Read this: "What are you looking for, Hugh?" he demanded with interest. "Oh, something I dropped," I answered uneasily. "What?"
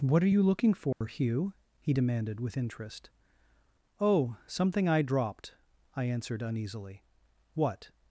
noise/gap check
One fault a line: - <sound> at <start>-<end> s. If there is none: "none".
- dropout at 0.9-1.0 s